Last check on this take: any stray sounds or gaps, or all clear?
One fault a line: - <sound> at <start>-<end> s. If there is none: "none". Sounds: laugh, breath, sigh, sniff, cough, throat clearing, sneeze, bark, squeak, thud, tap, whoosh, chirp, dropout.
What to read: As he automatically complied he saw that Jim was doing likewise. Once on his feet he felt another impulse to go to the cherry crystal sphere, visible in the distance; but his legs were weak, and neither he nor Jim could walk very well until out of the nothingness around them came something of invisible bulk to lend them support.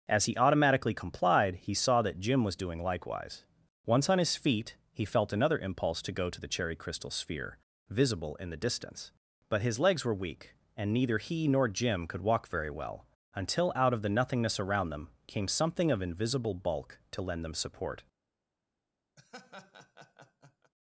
- laugh at 19.2-20.7 s